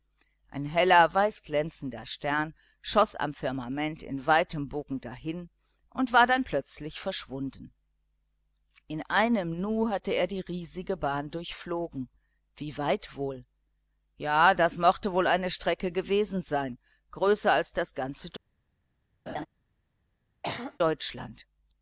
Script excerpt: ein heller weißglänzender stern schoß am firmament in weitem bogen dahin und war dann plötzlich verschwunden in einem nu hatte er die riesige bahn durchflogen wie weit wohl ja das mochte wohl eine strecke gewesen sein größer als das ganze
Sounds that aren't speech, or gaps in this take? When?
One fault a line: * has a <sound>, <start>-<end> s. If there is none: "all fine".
* has a laugh, 19.3-19.5 s
* has a throat clearing, 20.4-20.8 s